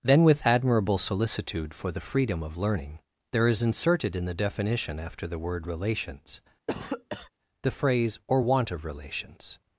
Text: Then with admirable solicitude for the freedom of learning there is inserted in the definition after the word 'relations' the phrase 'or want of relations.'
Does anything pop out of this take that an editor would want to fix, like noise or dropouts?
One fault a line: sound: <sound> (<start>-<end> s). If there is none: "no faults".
sound: cough (6.7-7.3 s)